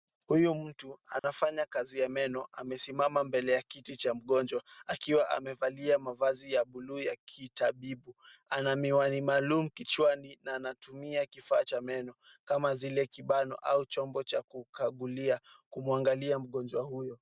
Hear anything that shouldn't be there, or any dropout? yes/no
yes